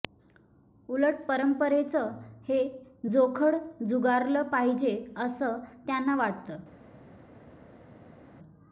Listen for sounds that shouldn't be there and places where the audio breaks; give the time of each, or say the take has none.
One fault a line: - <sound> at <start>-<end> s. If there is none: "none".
none